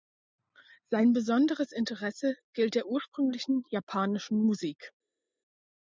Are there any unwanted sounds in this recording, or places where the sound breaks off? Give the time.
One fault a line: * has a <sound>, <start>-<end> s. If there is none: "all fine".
all fine